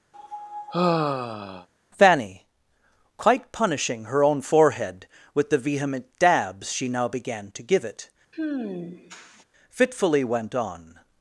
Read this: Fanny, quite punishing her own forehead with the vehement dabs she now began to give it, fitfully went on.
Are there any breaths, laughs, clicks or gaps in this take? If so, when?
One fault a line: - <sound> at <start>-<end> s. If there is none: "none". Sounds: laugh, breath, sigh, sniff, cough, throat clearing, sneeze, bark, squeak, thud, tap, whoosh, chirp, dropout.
- sigh at 0.1-1.7 s
- sigh at 8.3-9.4 s